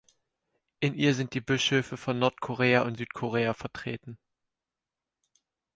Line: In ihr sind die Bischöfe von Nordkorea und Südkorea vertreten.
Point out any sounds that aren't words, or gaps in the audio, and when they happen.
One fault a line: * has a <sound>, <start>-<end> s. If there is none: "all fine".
all fine